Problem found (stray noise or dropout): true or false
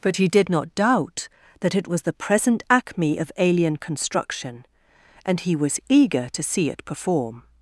false